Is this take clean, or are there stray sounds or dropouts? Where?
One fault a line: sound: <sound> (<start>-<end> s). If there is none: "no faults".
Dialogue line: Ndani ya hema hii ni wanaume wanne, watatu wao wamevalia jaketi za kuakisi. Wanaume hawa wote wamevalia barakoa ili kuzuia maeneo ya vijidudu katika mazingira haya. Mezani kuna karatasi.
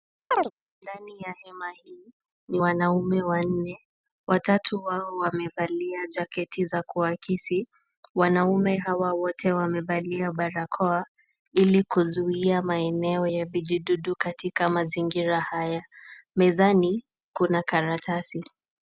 sound: chirp (0.3-0.5 s)